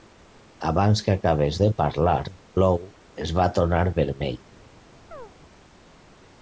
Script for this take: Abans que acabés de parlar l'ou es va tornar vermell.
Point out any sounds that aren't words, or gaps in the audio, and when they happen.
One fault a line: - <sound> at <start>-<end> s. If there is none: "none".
- chirp at 5.1-5.3 s